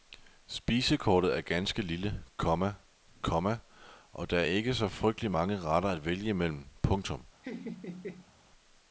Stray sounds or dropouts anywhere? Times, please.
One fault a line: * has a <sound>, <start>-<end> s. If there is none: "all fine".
* has a laugh, 7.4-8.3 s